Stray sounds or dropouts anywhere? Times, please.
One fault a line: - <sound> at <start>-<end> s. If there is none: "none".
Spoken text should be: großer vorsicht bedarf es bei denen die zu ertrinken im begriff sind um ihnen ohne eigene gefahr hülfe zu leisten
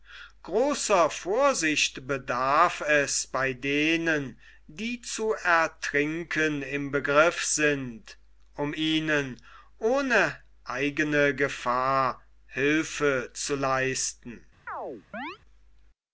- chirp at 14.7-15.4 s